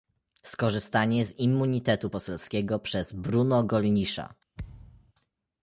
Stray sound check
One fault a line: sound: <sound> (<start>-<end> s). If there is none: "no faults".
sound: thud (4.6-5.1 s)